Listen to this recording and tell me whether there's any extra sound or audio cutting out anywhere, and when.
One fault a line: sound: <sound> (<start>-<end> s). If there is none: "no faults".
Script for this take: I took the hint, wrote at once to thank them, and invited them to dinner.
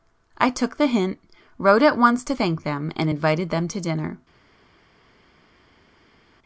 no faults